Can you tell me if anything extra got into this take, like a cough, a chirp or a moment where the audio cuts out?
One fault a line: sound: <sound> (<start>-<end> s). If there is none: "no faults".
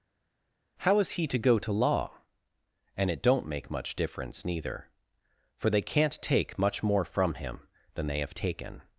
no faults